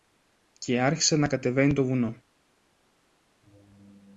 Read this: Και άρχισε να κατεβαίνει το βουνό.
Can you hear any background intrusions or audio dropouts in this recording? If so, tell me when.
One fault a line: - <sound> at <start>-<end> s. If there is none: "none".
none